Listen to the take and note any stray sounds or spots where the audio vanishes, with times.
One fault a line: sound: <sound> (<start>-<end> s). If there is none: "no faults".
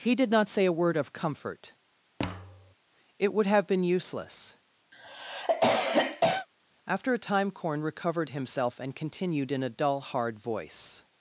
sound: thud (2.2-2.7 s)
sound: cough (4.9-6.5 s)